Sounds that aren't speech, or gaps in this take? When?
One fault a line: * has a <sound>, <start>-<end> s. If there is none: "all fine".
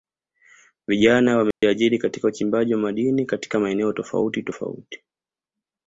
* has a dropout, 1.5-1.6 s